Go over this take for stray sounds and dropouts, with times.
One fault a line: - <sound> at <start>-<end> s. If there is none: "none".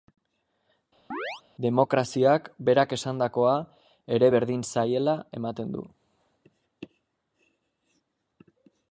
- chirp at 1.1-1.4 s